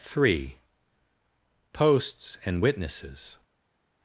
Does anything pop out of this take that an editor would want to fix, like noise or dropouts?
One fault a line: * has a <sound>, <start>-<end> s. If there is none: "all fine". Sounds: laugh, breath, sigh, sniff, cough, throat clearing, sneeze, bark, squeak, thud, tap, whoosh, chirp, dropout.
all fine